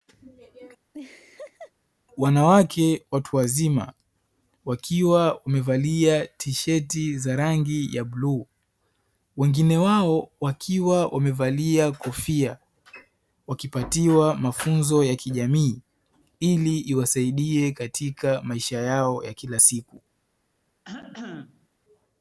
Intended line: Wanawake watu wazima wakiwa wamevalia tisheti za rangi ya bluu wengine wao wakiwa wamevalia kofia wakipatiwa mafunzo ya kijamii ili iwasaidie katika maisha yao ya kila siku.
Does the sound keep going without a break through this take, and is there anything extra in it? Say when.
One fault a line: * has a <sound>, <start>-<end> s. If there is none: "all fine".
* has a laugh, 0.9-1.7 s
* has a cough, 20.8-21.7 s